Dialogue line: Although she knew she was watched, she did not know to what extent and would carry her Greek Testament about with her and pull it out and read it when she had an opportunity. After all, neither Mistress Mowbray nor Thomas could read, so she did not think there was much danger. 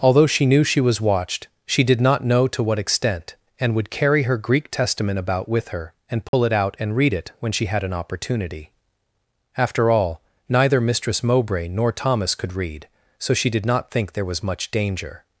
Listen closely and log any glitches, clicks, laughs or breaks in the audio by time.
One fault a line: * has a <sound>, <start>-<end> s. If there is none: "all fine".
* has a dropout, 6.3-6.3 s